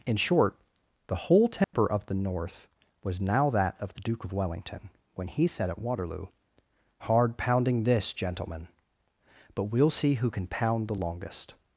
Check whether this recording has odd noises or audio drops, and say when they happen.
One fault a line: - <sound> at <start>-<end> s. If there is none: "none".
- dropout at 1.6-1.7 s